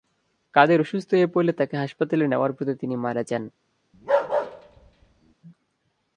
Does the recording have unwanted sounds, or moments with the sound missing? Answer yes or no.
yes